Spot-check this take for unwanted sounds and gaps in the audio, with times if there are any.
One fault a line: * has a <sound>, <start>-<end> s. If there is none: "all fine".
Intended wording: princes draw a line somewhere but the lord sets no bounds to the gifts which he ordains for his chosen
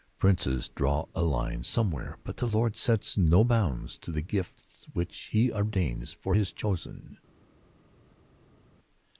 all fine